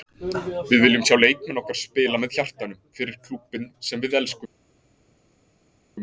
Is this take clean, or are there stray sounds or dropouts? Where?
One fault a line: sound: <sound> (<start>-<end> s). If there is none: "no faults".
no faults